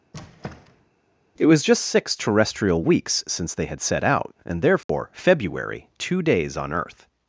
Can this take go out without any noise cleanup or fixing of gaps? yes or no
no